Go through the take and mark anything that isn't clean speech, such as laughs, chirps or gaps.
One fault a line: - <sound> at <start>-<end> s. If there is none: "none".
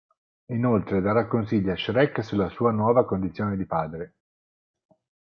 none